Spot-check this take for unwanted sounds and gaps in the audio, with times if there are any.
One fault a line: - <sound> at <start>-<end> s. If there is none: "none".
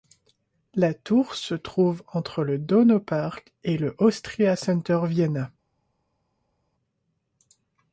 none